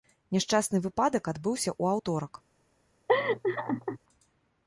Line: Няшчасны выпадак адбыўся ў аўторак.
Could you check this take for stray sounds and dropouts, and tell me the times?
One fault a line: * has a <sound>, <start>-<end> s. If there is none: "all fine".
* has a laugh, 3.1-4.0 s